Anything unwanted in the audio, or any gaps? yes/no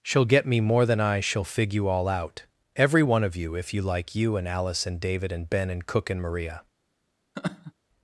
yes